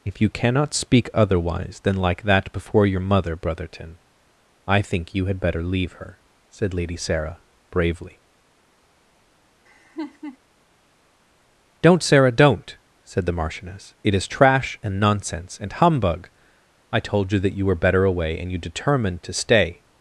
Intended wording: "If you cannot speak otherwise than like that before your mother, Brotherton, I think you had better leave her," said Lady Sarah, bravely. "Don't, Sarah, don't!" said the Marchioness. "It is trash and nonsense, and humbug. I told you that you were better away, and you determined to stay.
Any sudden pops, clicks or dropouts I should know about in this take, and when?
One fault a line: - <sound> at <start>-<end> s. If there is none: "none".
- laugh at 9.7-10.4 s